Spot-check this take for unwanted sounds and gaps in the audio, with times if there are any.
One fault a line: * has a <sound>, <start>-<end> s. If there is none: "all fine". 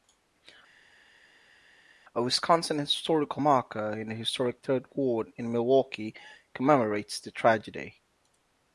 all fine